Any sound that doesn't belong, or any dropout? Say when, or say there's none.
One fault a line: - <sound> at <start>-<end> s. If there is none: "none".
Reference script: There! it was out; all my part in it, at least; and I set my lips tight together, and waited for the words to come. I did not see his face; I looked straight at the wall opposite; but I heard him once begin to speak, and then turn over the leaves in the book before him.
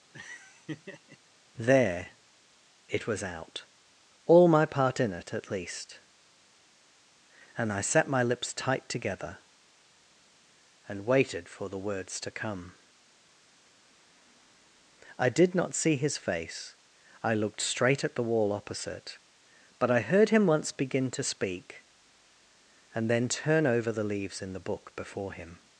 - laugh at 0.1-1.2 s